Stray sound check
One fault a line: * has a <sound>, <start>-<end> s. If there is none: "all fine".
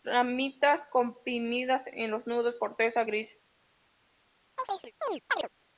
* has a chirp, 4.6-5.5 s